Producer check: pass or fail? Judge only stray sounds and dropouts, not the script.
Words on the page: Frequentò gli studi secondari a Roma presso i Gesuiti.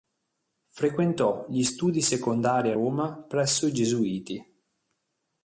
pass